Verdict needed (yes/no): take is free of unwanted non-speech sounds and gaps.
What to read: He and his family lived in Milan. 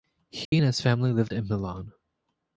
no